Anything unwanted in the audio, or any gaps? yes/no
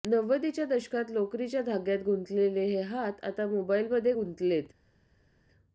no